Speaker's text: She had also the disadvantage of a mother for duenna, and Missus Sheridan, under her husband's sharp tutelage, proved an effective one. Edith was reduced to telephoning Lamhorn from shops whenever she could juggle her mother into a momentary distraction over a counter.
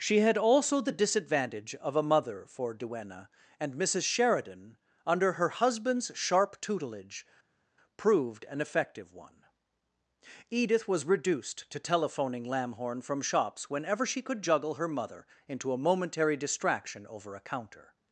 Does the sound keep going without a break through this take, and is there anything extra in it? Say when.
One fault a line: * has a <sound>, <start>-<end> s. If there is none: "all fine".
all fine